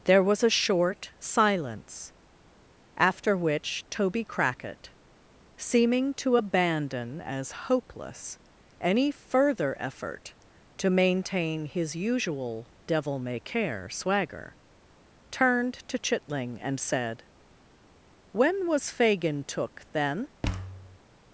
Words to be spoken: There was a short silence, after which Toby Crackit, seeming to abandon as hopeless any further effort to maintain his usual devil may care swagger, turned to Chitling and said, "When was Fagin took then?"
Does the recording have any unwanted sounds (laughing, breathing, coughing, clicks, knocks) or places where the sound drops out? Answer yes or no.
yes